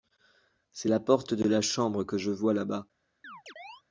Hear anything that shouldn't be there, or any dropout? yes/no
yes